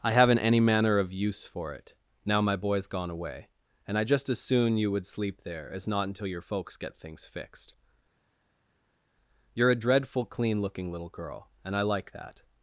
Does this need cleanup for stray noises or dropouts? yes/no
no